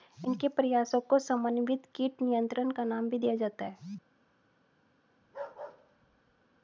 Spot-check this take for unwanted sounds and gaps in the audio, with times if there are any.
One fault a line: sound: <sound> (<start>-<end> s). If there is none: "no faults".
sound: bark (5.2-6.6 s)